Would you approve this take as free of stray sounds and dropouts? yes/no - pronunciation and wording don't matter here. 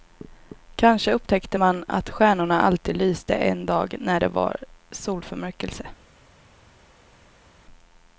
yes